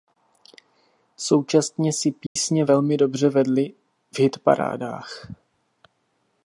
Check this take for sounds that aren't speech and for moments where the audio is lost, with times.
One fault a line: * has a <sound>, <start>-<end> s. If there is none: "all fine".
* has a dropout, 2.3-2.4 s